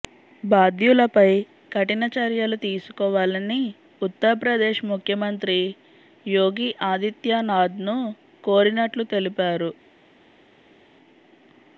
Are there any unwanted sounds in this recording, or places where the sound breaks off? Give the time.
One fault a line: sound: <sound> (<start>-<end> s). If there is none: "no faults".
no faults